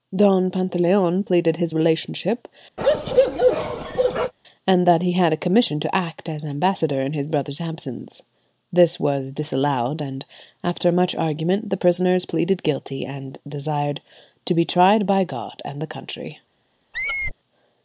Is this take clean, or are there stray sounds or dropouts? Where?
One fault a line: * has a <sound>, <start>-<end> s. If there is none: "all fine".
* has a bark, 2.8-4.3 s
* has a squeak, 16.9-17.3 s